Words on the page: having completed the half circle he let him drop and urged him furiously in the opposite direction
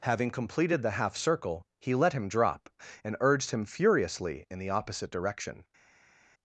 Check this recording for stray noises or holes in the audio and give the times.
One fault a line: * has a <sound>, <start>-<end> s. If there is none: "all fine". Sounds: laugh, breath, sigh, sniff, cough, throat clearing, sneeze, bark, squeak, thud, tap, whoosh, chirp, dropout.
all fine